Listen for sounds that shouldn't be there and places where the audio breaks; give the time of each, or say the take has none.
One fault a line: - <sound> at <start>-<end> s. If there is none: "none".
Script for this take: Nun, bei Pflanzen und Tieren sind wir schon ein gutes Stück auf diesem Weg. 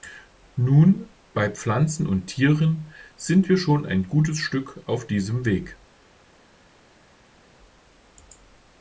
none